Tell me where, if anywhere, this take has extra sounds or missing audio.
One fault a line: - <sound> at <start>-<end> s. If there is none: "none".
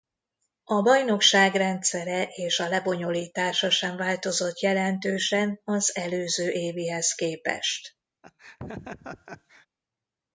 - laugh at 8.2-9.7 s